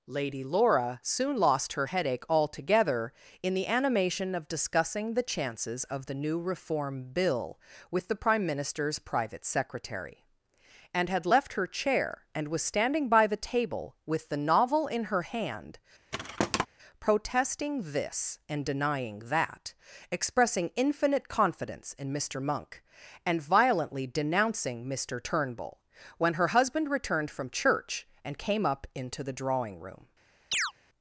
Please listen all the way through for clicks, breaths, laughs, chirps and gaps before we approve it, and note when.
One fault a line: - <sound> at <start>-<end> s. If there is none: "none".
- thud at 16.1-16.7 s
- chirp at 30.5-30.7 s